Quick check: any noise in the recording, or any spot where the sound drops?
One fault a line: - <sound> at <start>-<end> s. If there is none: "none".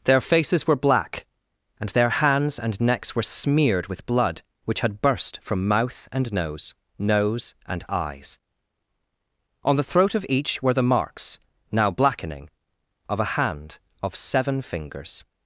none